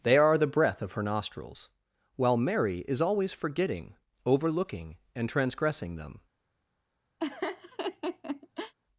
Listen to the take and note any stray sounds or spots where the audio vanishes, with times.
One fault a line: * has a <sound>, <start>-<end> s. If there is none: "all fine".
* has a laugh, 7.2-8.7 s